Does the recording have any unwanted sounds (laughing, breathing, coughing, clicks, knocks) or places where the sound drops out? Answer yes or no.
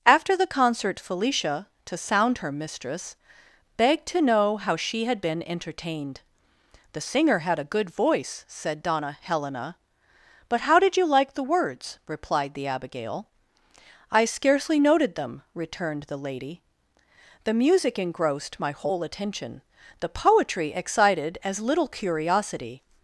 no